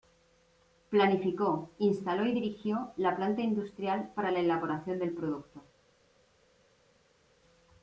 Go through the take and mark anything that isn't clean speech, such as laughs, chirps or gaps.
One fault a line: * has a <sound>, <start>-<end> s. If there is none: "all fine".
all fine